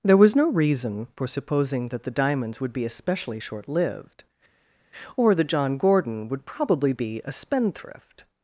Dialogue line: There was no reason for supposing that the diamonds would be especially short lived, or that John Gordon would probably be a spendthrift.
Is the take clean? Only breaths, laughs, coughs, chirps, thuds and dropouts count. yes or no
yes